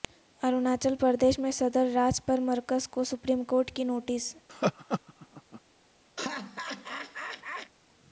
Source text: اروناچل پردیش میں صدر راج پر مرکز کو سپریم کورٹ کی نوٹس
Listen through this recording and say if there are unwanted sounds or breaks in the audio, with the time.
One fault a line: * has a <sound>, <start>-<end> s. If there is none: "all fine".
* has a laugh, 4.5-5.6 s
* has a laugh, 6.2-7.7 s